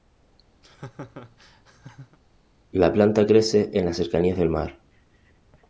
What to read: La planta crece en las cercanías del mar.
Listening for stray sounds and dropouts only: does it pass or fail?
fail